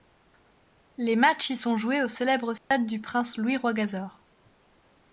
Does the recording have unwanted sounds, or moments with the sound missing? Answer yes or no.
yes